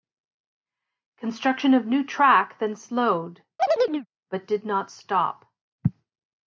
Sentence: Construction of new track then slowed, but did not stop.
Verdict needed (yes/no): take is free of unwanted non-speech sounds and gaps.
no